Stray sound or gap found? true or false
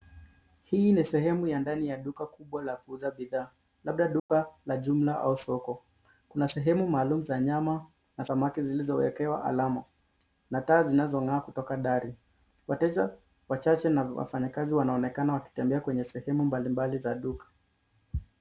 true